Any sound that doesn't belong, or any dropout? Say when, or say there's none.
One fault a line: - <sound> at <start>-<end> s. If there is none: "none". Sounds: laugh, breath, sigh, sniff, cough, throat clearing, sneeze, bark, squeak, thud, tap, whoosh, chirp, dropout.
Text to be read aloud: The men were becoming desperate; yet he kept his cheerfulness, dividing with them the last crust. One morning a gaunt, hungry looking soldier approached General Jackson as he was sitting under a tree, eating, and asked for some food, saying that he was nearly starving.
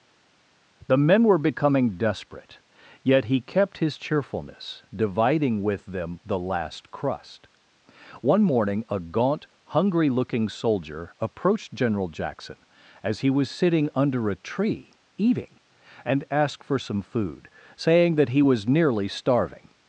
none